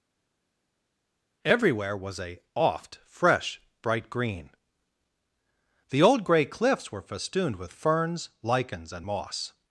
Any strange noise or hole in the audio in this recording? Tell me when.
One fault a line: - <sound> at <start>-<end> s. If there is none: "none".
none